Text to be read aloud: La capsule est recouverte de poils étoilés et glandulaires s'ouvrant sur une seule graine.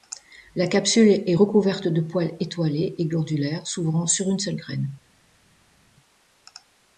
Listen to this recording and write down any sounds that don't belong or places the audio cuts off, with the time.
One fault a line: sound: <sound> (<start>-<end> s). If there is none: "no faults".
no faults